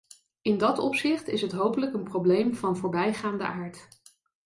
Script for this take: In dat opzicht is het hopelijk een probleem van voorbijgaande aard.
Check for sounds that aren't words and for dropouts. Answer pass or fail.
pass